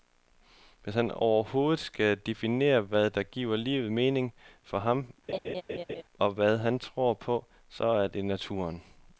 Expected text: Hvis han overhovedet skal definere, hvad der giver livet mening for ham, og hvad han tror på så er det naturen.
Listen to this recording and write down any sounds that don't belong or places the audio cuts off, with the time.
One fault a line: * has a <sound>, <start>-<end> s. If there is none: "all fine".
* has a laugh, 5.3-6.0 s